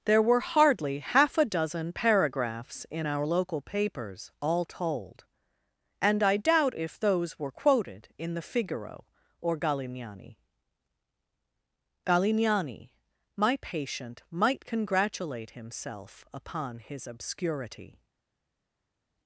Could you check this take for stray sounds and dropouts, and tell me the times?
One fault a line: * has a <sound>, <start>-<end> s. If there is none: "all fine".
all fine